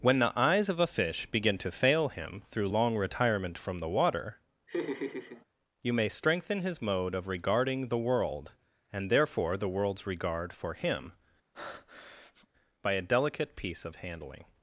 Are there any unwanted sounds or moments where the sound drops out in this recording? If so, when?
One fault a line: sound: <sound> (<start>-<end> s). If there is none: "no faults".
sound: laugh (4.7-5.4 s)
sound: breath (11.5-12.5 s)